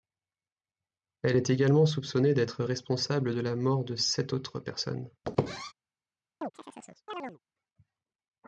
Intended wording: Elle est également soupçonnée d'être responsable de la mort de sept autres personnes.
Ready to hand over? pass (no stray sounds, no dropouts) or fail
fail